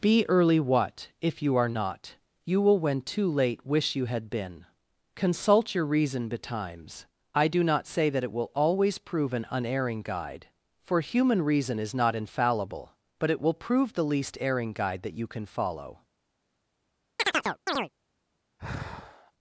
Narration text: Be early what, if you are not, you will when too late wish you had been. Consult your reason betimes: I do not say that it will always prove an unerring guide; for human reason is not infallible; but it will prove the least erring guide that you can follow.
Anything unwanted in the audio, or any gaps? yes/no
yes